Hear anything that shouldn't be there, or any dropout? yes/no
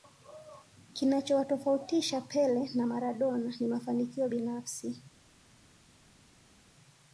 no